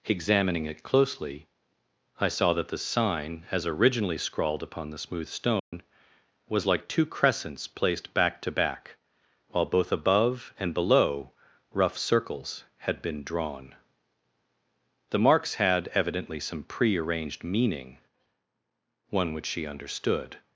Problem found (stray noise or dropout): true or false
true